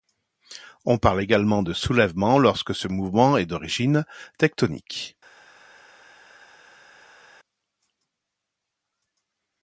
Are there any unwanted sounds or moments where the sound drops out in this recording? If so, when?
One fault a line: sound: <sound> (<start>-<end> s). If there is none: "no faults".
no faults